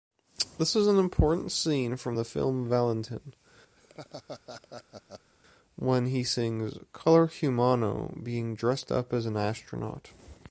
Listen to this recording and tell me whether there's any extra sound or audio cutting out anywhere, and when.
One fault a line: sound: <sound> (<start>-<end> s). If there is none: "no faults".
sound: laugh (3.8-5.3 s)